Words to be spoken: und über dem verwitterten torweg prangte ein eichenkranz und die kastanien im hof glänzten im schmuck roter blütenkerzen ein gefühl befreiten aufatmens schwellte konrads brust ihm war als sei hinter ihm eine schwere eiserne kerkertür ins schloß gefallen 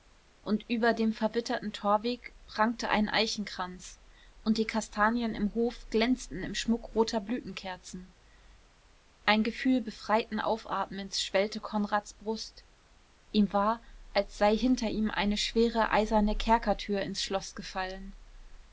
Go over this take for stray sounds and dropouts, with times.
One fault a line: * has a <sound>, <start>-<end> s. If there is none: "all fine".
all fine